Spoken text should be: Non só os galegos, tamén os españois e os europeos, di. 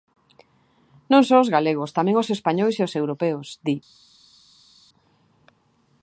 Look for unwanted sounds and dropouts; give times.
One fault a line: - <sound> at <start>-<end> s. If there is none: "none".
none